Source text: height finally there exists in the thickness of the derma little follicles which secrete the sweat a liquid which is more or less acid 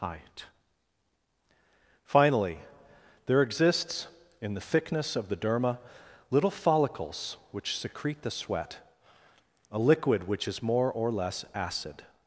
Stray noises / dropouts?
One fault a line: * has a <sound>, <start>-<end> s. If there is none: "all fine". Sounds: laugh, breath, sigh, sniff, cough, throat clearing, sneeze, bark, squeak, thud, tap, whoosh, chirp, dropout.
all fine